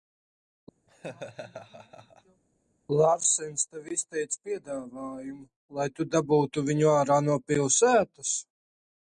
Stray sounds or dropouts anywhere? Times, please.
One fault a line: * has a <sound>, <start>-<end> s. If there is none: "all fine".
* has a laugh, 0.9-2.4 s